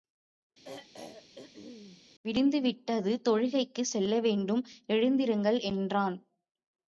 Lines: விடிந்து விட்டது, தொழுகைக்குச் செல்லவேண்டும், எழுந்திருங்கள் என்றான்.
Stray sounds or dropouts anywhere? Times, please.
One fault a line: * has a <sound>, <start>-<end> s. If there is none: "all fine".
* has a throat clearing, 0.6-2.0 s